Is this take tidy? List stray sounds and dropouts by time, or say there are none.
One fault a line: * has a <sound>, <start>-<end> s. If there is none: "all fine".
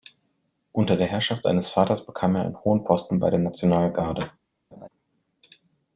* has a laugh, 4.7-4.9 s